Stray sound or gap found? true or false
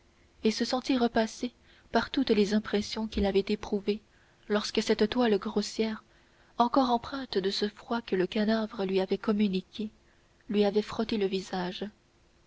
false